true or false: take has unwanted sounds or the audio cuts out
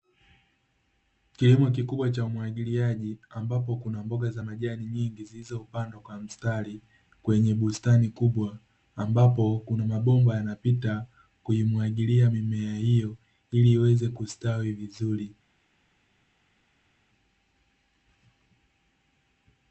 false